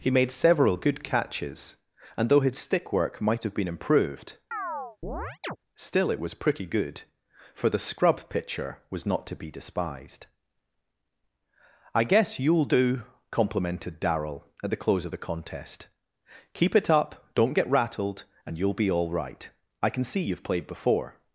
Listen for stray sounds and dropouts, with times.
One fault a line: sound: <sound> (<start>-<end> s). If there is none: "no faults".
sound: chirp (4.5-5.6 s)